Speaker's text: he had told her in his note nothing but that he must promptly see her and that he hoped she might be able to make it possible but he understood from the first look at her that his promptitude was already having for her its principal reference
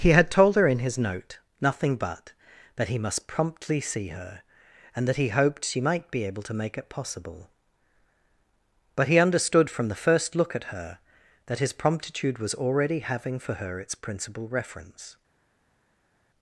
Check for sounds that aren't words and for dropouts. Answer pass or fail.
pass